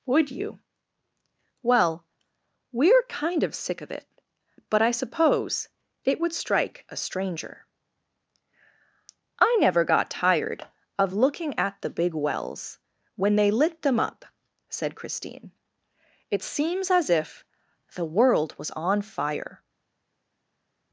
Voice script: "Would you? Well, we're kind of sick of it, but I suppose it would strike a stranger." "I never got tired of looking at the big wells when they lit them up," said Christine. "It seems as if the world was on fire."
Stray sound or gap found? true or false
false